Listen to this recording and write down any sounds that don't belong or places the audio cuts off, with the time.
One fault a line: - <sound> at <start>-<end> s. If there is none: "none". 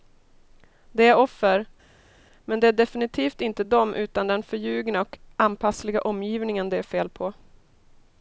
none